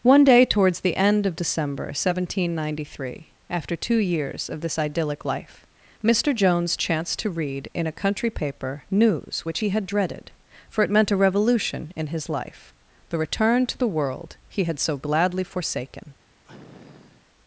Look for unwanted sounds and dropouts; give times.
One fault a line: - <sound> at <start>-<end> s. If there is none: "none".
- sniff at 16.5-17.3 s